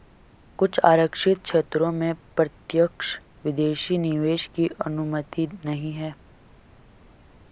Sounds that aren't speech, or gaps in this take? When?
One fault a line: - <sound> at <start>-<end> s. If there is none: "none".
none